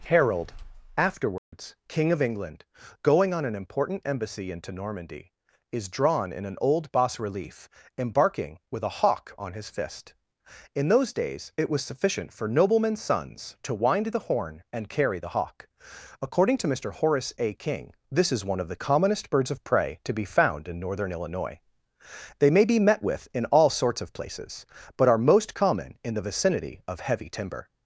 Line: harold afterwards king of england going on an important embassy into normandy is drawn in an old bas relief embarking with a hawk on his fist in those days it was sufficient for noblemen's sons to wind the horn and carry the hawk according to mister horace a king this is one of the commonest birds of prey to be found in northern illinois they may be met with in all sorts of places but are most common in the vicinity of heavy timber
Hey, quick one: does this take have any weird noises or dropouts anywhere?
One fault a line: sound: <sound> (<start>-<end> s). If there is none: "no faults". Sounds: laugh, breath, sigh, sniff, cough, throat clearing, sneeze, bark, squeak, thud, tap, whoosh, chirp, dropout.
sound: dropout (1.4-1.5 s)